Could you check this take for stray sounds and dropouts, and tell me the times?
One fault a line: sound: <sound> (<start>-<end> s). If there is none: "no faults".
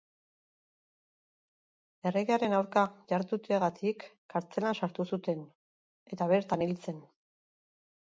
no faults